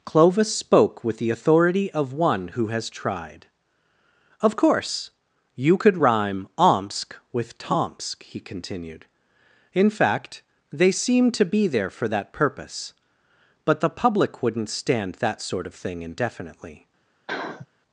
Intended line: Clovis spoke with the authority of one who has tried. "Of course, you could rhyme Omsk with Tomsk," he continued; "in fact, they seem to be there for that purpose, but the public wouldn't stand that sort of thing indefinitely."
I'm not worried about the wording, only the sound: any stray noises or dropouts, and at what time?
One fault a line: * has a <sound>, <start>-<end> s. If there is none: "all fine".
* has a sniff, 17.3-17.7 s